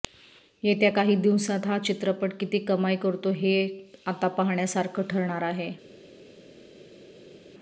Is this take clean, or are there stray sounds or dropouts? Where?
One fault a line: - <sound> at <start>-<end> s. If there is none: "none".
none